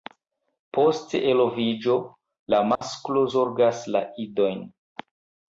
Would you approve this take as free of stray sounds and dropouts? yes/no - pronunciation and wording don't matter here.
no